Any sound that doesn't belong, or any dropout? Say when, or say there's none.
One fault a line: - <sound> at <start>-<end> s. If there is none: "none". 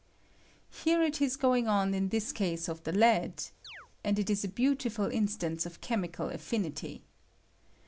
- chirp at 3.6-3.9 s